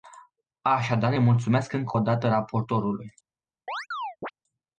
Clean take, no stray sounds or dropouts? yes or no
no